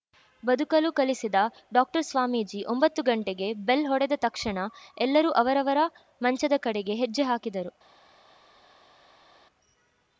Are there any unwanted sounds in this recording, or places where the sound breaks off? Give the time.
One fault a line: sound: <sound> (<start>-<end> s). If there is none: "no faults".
no faults